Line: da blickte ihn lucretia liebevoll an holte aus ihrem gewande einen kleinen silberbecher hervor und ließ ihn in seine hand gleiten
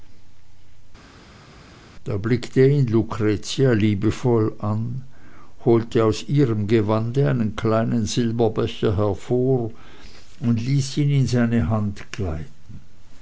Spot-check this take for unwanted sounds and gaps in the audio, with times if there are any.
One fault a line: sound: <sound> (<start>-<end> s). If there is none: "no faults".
no faults